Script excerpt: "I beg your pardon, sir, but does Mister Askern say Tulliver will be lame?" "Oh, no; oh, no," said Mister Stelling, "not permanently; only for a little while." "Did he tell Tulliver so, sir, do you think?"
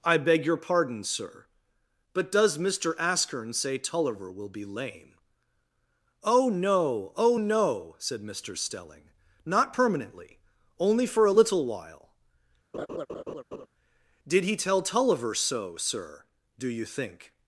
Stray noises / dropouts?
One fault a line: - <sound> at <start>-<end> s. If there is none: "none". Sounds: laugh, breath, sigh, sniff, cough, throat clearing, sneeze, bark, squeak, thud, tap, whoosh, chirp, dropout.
- laugh at 12.7-13.7 s